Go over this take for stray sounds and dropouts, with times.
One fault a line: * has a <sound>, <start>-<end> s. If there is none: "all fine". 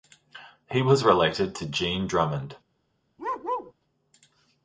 * has a bark, 3.2-3.7 s